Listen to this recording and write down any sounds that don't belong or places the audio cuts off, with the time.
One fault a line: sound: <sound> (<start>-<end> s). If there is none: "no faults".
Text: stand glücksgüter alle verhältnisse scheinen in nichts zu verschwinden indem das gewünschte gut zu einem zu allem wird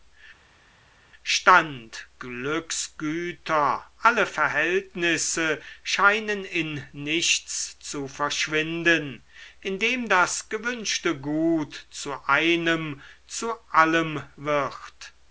no faults